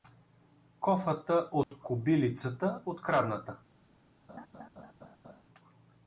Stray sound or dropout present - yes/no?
yes